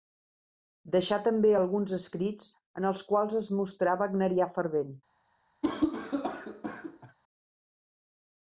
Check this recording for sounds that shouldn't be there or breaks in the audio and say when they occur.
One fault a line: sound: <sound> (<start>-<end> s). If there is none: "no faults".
sound: cough (5.6-7.2 s)